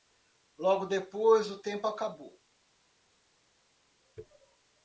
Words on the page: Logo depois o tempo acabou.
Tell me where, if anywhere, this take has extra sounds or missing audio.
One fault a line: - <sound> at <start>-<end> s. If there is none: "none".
none